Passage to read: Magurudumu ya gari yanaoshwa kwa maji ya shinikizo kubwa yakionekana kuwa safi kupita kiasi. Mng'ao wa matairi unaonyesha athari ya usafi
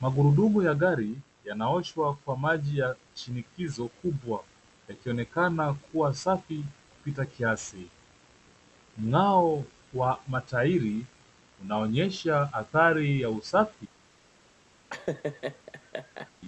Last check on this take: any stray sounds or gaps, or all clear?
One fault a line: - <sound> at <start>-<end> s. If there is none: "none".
- laugh at 14.9-16.3 s